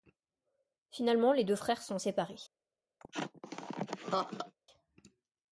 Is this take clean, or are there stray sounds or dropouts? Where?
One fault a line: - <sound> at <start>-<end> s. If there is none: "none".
- laugh at 3.0-4.5 s